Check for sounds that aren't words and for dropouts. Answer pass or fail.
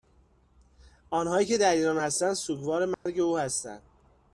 fail